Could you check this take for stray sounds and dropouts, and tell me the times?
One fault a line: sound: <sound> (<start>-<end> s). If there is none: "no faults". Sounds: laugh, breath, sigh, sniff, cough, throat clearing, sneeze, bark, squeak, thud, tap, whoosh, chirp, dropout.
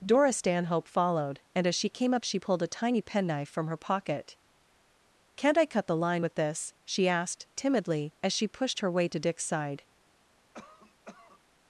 sound: cough (10.5-11.4 s)